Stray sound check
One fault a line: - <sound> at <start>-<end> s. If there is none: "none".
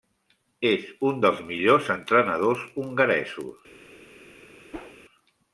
- whoosh at 4.7-5.0 s